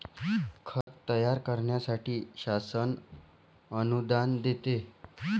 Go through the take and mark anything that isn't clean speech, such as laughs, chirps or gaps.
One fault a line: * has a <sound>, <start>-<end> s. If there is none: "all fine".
* has a dropout, 0.8-0.9 s